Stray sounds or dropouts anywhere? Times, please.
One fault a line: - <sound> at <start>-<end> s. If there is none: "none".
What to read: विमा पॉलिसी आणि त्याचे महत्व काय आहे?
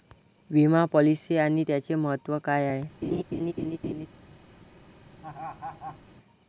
- laugh at 3.0-4.1 s
- laugh at 5.2-6.0 s